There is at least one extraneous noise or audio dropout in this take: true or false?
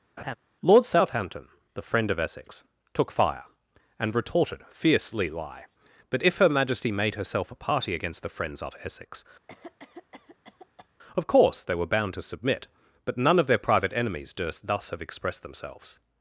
true